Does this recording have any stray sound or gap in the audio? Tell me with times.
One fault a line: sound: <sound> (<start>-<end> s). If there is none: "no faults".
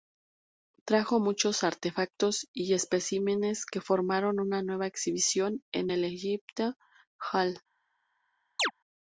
sound: chirp (8.6-8.7 s)